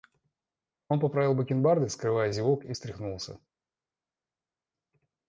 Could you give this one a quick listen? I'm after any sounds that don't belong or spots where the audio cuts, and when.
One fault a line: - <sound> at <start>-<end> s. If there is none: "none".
none